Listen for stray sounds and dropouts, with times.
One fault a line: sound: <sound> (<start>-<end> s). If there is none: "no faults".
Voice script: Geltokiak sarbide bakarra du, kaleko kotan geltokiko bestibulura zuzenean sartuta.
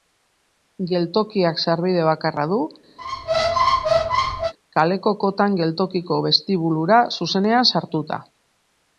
sound: squeak (3.0-4.5 s)